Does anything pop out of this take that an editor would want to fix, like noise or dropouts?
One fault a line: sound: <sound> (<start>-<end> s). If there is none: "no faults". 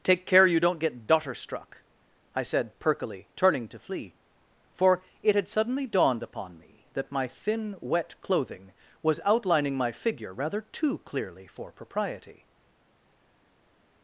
no faults